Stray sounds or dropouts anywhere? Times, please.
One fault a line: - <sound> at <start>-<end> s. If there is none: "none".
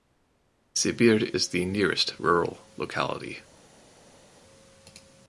none